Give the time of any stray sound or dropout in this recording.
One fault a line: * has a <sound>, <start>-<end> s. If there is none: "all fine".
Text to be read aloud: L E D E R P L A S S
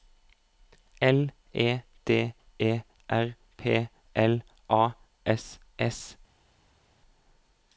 all fine